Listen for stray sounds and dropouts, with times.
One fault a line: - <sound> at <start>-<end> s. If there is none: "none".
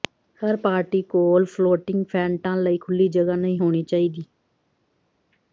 none